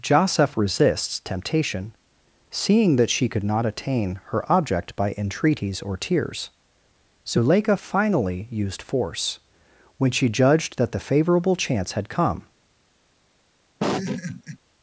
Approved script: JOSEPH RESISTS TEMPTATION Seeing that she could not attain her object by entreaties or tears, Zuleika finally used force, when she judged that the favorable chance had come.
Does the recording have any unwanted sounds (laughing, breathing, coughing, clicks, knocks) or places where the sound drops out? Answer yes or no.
yes